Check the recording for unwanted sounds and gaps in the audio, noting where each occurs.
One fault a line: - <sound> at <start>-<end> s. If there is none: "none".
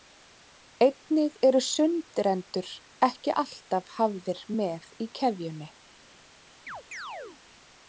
- chirp at 6.7-7.4 s